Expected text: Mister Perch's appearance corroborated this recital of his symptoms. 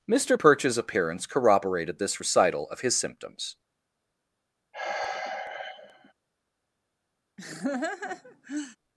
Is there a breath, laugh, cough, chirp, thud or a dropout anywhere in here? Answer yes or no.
yes